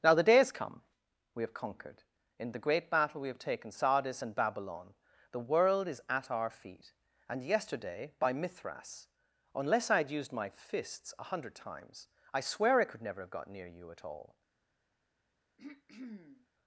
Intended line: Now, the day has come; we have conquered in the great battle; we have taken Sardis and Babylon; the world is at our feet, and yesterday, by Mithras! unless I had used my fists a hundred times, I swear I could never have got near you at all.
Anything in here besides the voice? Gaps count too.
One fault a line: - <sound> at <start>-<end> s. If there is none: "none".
- throat clearing at 15.6-16.5 s